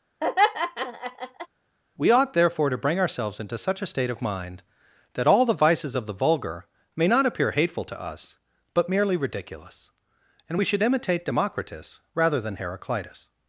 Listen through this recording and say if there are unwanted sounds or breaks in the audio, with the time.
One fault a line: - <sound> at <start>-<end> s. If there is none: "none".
- laugh at 0.2-1.5 s